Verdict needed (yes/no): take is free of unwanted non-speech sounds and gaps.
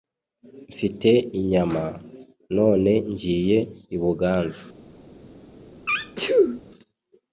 no